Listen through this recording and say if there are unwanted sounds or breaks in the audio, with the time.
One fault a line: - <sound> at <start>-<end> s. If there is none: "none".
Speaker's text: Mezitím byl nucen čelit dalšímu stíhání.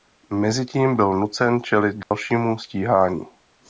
- dropout at 2.0-2.1 s